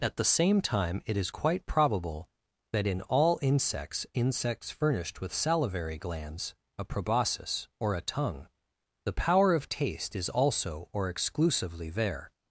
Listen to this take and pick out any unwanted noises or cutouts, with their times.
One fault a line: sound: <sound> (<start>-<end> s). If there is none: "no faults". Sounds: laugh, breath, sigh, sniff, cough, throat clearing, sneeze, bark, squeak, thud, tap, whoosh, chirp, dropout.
no faults